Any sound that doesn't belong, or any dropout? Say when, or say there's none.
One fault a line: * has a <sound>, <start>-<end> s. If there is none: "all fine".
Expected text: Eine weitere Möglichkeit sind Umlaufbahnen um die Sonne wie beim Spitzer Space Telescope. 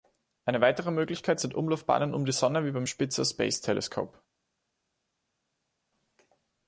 all fine